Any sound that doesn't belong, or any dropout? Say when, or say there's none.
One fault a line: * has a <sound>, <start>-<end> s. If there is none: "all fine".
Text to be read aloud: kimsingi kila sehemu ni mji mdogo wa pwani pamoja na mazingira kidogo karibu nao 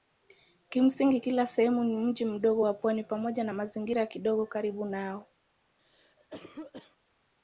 * has a cough, 5.8-7.0 s